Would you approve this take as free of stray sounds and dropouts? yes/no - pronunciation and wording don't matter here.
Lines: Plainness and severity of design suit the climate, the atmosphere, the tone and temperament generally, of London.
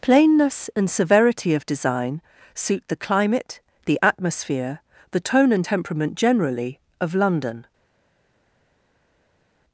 yes